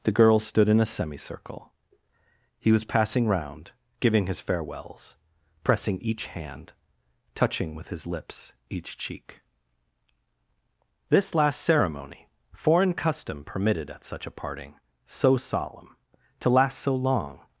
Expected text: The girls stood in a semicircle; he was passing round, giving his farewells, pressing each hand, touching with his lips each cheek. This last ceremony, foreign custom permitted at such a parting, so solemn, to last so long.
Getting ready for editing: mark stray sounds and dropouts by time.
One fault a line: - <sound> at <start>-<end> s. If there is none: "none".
none